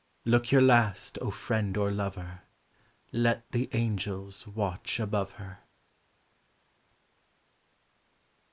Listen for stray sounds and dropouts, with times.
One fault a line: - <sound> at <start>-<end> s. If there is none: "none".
none